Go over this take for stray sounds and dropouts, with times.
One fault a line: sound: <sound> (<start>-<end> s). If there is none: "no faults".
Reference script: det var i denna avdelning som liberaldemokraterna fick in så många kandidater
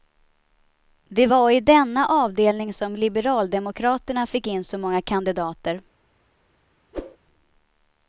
sound: whoosh (6.9-7.2 s)